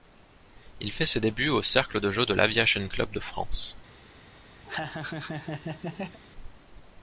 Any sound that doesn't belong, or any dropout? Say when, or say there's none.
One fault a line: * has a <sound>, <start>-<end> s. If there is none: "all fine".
* has a laugh, 4.6-6.2 s